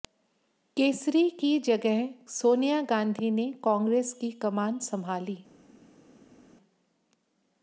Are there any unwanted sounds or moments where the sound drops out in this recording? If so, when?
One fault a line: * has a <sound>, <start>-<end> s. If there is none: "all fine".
all fine